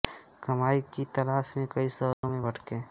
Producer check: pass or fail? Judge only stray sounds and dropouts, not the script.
fail